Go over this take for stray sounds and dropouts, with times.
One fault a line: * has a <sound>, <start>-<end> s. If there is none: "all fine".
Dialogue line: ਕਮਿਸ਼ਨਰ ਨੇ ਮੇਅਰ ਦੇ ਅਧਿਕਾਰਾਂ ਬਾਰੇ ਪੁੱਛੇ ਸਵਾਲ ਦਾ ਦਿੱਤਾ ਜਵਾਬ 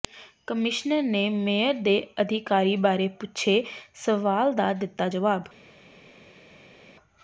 all fine